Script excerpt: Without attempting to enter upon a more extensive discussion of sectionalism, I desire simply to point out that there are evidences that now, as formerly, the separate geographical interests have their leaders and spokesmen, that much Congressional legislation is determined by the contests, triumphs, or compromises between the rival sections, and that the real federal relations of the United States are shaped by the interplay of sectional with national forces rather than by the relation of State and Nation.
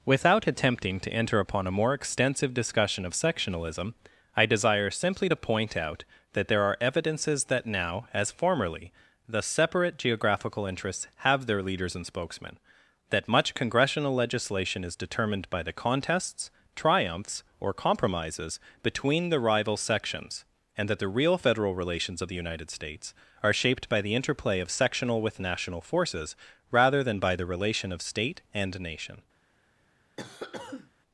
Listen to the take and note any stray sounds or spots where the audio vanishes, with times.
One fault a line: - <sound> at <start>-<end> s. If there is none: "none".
- cough at 30.2-30.9 s